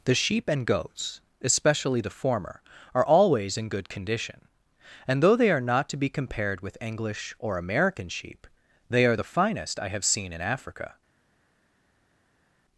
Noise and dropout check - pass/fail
pass